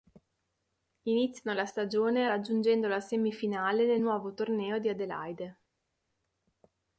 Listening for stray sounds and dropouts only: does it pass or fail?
pass